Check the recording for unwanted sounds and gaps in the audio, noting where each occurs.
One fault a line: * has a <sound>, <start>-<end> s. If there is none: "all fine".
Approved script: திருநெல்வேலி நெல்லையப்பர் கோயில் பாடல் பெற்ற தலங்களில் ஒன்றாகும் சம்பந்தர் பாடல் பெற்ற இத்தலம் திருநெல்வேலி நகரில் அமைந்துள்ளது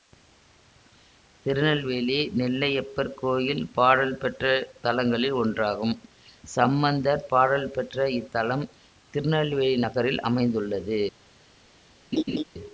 * has a laugh, 12.1-12.4 s